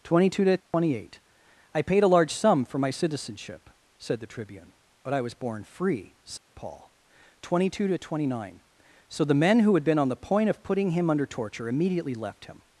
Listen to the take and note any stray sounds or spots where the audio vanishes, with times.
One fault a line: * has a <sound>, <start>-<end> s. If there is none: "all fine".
* has a dropout, 0.6-0.7 s
* has a dropout, 6.4-6.5 s